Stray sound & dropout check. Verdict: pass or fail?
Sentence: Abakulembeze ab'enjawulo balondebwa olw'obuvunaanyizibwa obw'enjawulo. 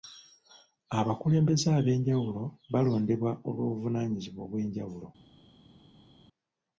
pass